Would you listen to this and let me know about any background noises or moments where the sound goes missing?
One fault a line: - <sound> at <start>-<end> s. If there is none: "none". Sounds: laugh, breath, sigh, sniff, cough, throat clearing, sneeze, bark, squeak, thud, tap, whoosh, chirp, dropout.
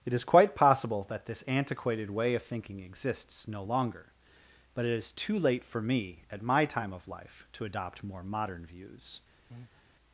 - breath at 9.5-9.8 s